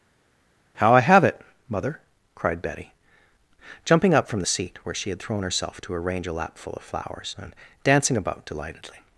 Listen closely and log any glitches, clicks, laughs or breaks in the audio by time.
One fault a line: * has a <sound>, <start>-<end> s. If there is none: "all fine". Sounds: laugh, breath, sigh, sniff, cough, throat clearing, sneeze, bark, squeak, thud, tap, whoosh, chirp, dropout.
all fine